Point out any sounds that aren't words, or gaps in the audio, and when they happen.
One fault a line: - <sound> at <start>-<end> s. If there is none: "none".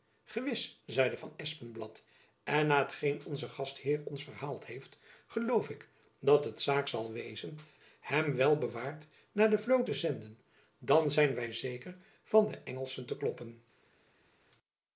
none